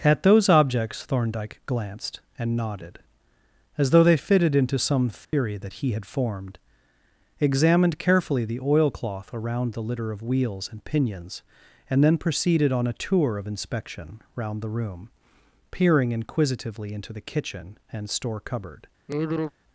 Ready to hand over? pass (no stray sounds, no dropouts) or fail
fail